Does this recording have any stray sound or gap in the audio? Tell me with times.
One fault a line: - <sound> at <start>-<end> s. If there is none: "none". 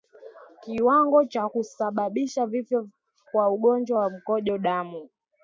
none